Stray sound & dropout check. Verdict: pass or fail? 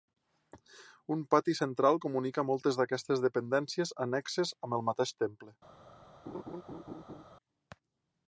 fail